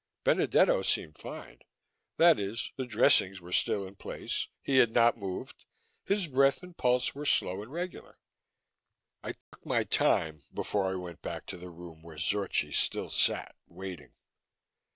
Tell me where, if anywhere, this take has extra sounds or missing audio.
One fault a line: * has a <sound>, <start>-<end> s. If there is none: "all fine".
* has a dropout, 9.4-9.5 s